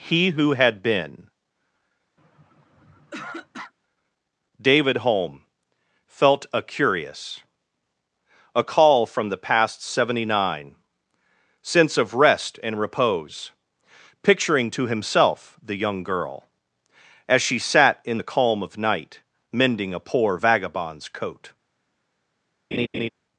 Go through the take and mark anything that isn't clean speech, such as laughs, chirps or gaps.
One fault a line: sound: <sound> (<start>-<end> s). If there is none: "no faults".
sound: throat clearing (2.2-3.7 s)
sound: laugh (22.7-23.1 s)